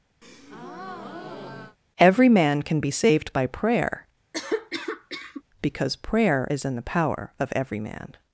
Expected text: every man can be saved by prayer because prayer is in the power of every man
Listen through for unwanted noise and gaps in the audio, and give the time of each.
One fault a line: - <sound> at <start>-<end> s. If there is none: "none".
- breath at 0.2-1.8 s
- cough at 4.3-5.4 s